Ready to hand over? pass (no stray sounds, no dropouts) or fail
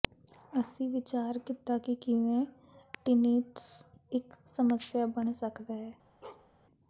fail